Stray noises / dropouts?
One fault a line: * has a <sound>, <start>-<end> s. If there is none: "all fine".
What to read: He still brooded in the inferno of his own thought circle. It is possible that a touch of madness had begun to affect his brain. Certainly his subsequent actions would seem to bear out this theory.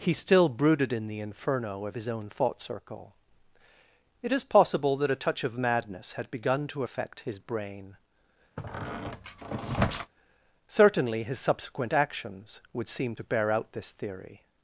* has a squeak, 8.6-10.1 s